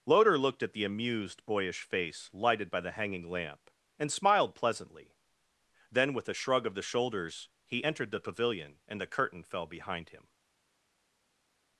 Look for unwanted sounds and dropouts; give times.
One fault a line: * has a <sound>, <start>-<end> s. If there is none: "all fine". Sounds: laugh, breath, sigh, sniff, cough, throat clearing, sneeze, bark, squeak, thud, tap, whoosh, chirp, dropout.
all fine